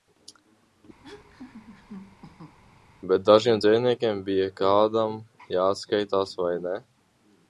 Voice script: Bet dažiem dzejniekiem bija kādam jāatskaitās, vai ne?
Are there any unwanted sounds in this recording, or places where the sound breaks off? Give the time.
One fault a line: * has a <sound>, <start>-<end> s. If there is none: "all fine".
* has a laugh, 1.0-2.6 s